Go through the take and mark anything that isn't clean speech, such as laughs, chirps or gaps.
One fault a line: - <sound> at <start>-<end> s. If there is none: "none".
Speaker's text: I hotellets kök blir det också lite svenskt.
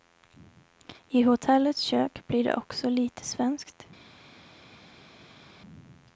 none